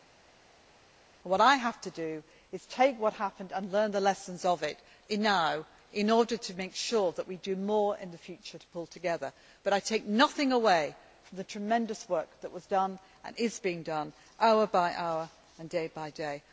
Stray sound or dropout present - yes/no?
no